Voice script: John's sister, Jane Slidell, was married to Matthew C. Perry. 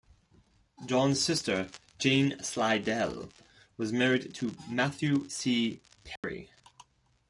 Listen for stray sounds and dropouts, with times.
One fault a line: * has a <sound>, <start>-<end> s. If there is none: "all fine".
* has a dropout, 6.2-6.2 s